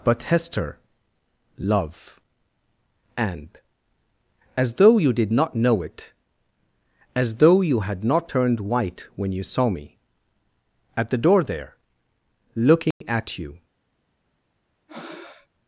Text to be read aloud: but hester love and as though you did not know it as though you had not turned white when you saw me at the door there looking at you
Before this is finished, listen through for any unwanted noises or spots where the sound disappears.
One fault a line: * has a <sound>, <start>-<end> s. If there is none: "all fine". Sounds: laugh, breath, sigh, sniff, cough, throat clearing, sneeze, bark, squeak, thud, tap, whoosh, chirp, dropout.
* has a dropout, 12.9-13.0 s
* has a breath, 14.9-15.5 s